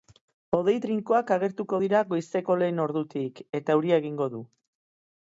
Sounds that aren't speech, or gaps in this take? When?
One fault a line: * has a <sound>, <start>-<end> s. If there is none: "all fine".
all fine